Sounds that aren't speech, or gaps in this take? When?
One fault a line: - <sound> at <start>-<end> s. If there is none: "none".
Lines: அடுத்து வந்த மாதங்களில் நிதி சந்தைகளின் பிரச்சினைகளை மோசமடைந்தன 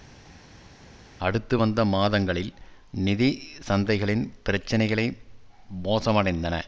none